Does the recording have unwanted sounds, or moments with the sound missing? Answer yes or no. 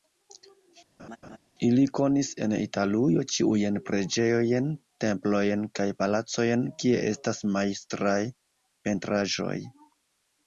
yes